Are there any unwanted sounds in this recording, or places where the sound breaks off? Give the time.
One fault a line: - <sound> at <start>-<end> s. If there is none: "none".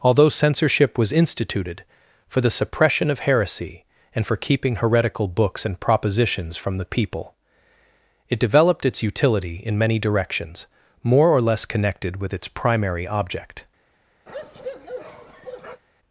- bark at 14.3-15.8 s